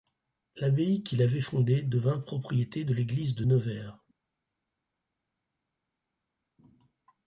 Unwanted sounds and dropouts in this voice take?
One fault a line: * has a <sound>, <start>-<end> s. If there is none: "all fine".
all fine